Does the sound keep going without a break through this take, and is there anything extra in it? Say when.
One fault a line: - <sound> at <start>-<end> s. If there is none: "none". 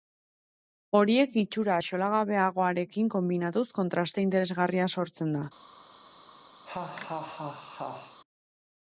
- laugh at 6.7-8.2 s